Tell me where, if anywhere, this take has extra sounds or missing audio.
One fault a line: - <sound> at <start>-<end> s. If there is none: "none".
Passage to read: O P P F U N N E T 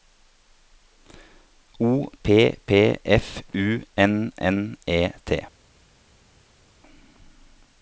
none